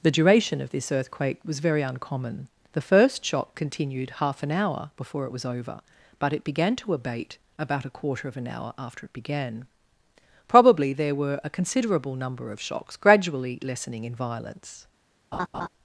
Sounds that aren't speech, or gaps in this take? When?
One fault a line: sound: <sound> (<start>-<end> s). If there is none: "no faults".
sound: laugh (15.3-15.7 s)